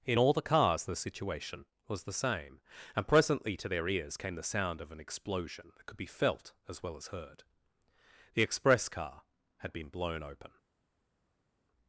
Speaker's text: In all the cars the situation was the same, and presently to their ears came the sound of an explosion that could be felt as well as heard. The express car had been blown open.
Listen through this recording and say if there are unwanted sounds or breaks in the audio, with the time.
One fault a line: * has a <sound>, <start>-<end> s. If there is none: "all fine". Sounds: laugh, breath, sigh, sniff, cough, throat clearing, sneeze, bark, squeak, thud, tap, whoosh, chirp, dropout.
all fine